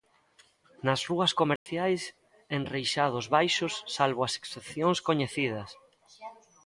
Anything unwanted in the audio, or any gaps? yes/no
yes